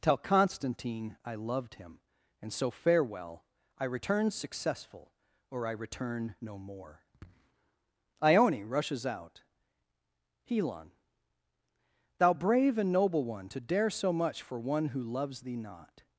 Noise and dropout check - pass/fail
pass